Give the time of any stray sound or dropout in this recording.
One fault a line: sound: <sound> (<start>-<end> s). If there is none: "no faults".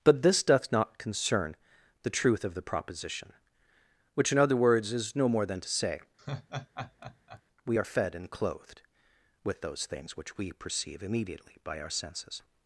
sound: laugh (6.2-7.4 s)